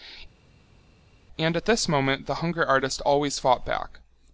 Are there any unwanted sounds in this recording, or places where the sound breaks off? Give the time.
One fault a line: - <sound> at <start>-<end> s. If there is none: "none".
none